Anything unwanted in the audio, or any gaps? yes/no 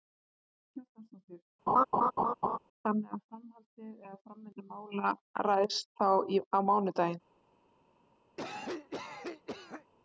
yes